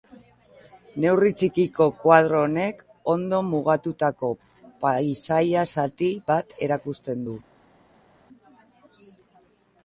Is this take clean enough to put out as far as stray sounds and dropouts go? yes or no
yes